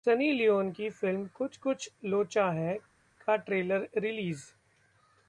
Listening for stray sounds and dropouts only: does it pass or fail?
pass